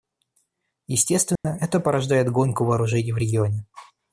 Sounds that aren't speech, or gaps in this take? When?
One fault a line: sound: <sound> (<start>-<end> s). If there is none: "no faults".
sound: dropout (1.4-1.4 s)